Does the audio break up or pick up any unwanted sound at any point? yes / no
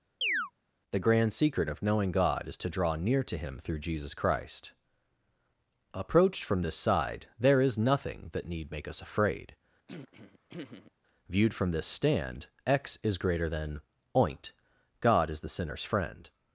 yes